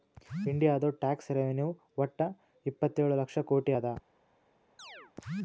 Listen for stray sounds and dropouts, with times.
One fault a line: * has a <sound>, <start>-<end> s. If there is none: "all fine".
* has a chirp, 4.8-5.1 s